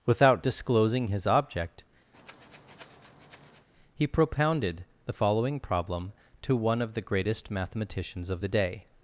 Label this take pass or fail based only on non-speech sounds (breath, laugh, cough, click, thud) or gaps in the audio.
fail